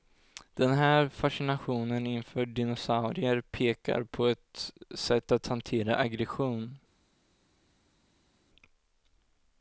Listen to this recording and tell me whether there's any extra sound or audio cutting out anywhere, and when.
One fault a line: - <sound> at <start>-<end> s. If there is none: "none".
none